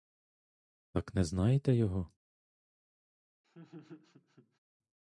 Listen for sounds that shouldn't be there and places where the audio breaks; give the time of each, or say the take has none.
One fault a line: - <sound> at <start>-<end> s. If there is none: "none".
- laugh at 3.4-4.6 s